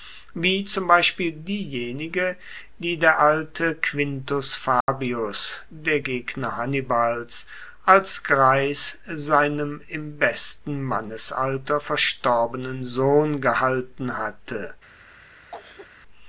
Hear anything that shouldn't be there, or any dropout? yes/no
yes